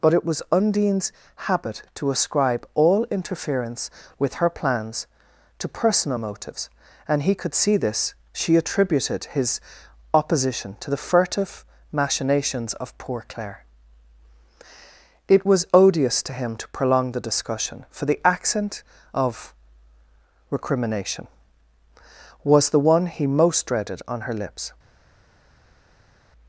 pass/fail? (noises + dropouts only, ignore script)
pass